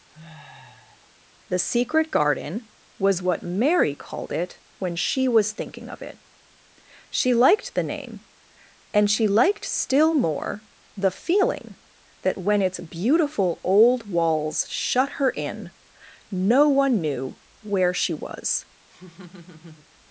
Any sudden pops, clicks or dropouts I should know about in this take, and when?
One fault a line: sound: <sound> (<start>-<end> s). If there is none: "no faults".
sound: sniff (0.1-1.1 s)
sound: laugh (18.9-19.9 s)